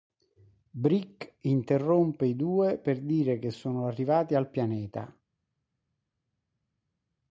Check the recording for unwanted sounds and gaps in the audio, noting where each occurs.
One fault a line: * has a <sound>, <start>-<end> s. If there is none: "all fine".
all fine